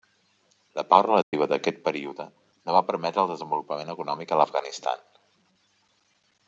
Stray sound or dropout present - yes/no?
yes